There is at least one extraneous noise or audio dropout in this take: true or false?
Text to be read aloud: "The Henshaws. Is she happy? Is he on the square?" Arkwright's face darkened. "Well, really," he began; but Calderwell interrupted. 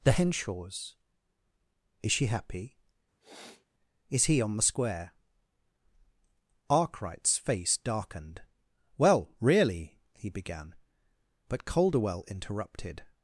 true